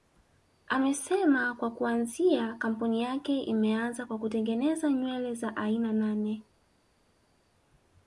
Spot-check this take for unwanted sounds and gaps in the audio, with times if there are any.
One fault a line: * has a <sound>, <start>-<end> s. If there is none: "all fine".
all fine